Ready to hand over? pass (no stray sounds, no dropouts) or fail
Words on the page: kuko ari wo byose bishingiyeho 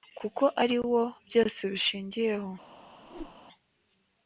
fail